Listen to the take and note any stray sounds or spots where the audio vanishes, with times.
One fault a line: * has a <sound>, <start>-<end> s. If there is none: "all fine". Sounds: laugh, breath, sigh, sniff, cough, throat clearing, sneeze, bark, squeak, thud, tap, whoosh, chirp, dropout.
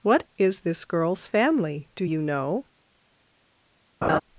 * has a laugh, 4.0-4.2 s